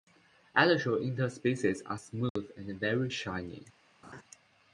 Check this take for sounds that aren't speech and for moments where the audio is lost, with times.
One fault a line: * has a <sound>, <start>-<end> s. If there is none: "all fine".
* has a dropout, 2.3-2.4 s
* has a laugh, 4.0-4.2 s